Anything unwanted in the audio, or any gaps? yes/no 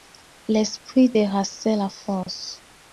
yes